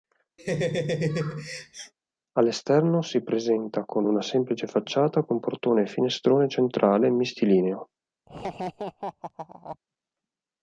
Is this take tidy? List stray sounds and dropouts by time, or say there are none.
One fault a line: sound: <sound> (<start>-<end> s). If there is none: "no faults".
sound: laugh (0.4-1.9 s)
sound: laugh (8.3-9.8 s)